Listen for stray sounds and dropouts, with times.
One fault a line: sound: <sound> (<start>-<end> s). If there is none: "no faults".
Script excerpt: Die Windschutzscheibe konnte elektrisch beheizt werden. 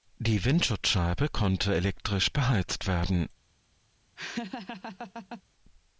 sound: laugh (4.2-5.4 s)